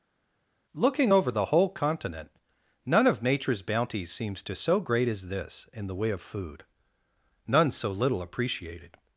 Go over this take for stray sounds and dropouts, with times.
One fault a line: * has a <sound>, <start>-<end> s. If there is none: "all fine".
all fine